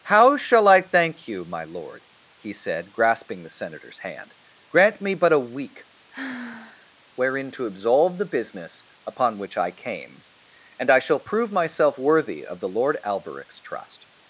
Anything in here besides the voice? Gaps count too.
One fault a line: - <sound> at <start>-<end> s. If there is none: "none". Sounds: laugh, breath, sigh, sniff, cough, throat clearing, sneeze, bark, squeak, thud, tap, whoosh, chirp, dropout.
- sigh at 6.1-6.9 s